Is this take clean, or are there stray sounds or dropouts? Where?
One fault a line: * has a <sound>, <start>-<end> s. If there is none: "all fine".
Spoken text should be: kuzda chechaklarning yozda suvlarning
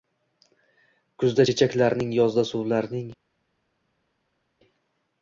all fine